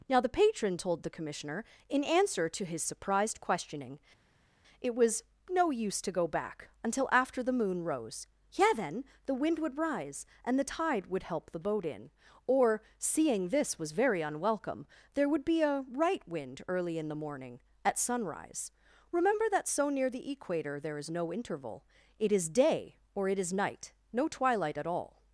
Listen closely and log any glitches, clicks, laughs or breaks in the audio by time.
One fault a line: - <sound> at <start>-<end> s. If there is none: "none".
none